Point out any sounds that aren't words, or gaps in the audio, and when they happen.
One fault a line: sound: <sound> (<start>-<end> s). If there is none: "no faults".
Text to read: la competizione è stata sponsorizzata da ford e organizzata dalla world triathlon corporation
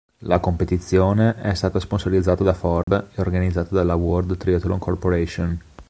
sound: dropout (2.8-2.9 s)